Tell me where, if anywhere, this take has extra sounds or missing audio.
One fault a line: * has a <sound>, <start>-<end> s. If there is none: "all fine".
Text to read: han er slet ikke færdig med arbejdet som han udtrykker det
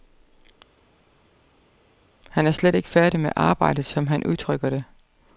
all fine